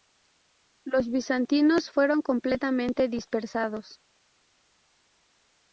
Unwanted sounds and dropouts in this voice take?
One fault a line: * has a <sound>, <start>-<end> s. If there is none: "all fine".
all fine